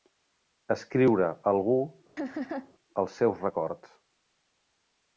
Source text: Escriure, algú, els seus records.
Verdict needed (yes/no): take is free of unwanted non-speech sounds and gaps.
no